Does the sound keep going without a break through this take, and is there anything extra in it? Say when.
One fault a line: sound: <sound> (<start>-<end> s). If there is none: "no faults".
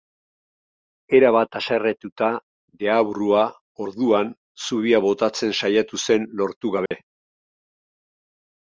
sound: dropout (6.9-6.9 s)